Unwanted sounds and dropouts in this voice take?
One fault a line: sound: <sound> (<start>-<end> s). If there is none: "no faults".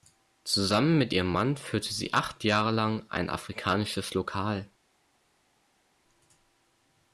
no faults